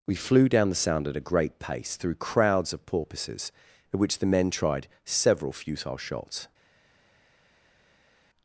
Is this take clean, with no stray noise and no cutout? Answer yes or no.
yes